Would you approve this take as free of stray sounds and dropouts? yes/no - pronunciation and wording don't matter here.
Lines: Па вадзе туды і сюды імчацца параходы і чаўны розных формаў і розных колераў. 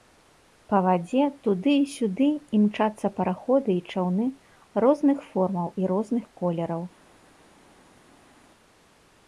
yes